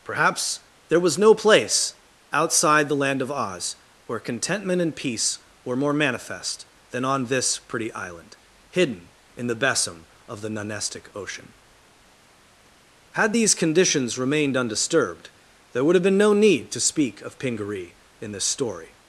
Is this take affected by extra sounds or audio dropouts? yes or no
no